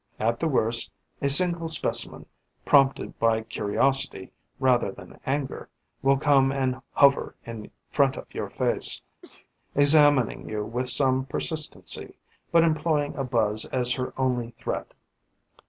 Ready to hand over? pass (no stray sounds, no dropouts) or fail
fail